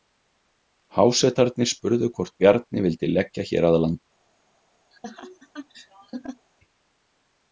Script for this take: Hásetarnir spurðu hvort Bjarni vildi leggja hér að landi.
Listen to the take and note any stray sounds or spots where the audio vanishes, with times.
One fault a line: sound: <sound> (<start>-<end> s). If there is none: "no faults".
sound: laugh (4.9-6.5 s)